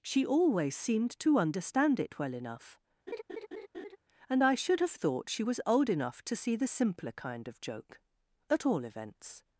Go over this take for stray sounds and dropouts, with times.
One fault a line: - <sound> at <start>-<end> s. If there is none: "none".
- laugh at 3.1-4.0 s